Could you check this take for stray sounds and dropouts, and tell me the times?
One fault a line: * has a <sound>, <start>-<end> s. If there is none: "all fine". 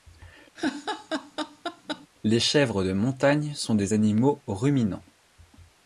* has a laugh, 0.5-2.1 s